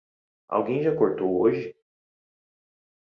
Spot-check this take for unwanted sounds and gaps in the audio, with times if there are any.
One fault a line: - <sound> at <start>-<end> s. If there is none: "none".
none